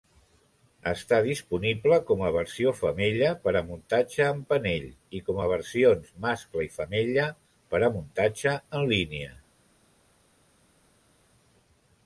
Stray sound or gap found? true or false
false